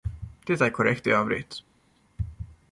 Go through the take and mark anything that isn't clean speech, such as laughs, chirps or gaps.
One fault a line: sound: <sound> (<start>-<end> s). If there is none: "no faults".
no faults